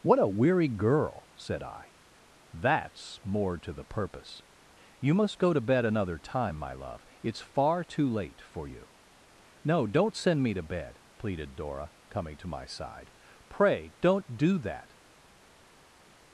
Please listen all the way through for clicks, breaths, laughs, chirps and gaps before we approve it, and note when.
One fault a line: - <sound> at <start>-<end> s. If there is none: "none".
none